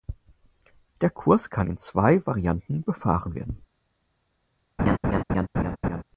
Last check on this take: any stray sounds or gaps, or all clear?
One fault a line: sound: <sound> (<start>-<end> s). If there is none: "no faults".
sound: laugh (4.8-6.0 s)